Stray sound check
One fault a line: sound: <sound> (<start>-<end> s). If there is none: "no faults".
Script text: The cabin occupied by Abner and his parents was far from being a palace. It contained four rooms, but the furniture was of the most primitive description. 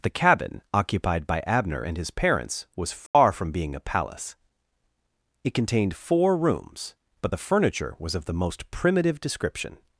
sound: dropout (3.1-3.1 s)